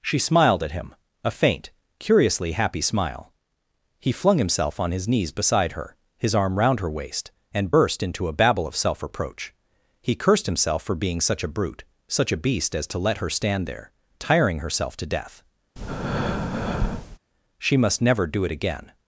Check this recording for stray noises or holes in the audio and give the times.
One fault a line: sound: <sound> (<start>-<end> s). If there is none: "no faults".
sound: breath (15.8-17.2 s)